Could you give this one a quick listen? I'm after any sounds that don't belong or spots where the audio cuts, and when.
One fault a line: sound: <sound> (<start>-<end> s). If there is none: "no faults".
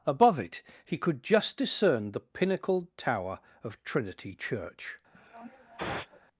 sound: sniff (5.1-6.2 s)